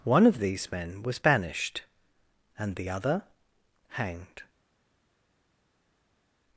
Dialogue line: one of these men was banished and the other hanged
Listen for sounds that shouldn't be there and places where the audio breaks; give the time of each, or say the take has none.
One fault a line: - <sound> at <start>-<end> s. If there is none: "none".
none